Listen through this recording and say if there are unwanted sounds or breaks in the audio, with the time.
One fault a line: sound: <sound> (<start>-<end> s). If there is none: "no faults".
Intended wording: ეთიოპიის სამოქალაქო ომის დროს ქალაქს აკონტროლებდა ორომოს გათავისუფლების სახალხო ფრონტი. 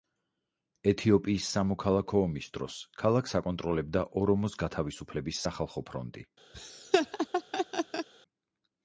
sound: laugh (6.5-8.1 s)